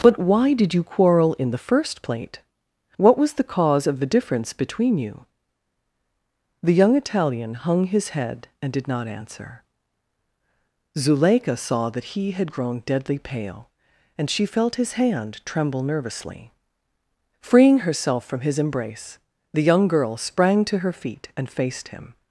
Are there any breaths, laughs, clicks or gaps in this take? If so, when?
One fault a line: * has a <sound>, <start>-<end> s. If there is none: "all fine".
all fine